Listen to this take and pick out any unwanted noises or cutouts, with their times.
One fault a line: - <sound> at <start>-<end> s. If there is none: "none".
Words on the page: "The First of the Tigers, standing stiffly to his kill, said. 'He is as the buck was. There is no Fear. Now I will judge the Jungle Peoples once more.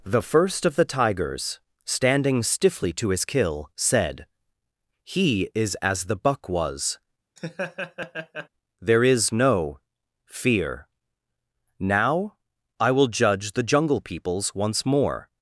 - laugh at 7.4-8.5 s